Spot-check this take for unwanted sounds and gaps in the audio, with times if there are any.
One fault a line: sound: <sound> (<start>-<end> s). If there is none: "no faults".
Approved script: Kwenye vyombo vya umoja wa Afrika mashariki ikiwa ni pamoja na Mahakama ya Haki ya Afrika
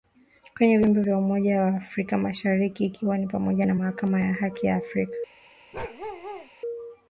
sound: bark (5.7-6.5 s)